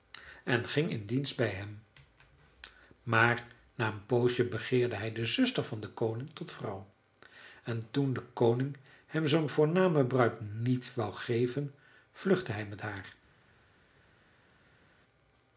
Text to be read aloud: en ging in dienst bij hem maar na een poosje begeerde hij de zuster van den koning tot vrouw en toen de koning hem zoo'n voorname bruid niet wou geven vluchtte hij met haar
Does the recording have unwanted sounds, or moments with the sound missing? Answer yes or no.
no